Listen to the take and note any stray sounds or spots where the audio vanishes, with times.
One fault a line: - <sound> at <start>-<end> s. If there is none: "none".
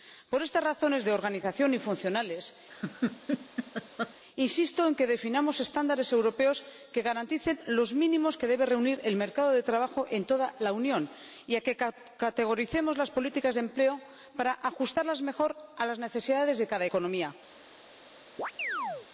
- laugh at 2.7-4.1 s
- chirp at 18.4-19.1 s